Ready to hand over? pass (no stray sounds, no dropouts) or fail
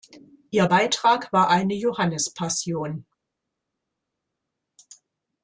pass